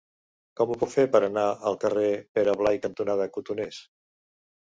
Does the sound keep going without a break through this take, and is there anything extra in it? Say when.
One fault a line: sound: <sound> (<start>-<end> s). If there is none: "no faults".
no faults